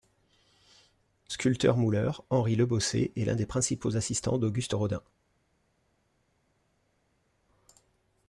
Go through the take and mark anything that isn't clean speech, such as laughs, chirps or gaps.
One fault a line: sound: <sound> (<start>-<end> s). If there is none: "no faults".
no faults